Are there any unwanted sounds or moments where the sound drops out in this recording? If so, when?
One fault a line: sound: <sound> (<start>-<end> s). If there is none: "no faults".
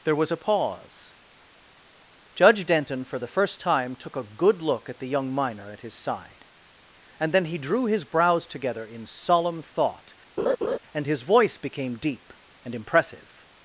sound: laugh (10.4-10.8 s)